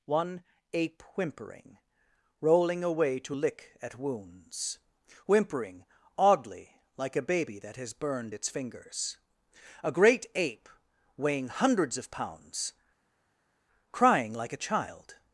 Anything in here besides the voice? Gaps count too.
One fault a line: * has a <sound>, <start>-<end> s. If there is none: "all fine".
all fine